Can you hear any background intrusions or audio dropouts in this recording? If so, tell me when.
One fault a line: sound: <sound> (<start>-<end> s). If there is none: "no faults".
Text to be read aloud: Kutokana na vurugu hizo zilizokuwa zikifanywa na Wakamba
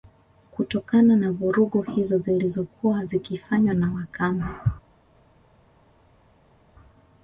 no faults